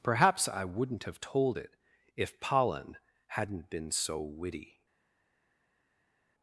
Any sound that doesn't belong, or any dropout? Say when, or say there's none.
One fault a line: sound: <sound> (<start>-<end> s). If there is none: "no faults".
no faults